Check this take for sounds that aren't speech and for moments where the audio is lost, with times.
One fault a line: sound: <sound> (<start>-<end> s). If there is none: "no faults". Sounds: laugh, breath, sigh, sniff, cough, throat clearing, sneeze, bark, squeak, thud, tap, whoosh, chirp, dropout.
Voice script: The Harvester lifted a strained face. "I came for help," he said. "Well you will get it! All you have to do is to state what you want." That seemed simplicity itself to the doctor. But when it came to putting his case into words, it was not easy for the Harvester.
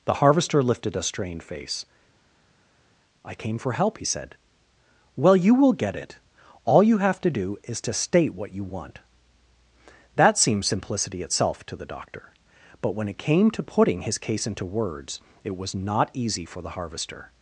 no faults